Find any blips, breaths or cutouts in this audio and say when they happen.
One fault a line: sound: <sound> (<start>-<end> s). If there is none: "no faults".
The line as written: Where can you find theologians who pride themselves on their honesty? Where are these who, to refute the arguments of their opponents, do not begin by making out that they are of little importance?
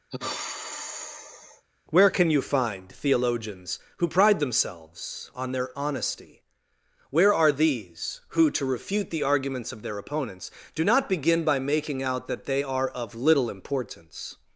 sound: sigh (0.1-1.7 s)